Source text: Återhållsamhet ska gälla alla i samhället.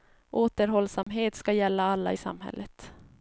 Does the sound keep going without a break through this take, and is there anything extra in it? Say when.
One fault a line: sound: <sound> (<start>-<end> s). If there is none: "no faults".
sound: dropout (1.0-1.1 s)